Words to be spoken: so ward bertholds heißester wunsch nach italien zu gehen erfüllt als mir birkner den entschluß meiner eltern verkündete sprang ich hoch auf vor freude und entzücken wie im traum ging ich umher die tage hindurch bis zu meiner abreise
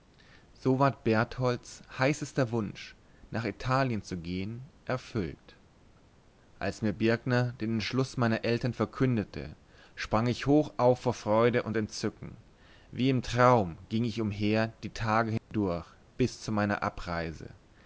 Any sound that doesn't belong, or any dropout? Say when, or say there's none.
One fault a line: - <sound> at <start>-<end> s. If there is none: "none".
- dropout at 15.4-15.5 s